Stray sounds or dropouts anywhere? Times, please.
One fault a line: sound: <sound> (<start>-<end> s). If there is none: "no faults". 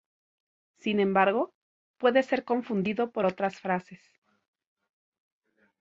no faults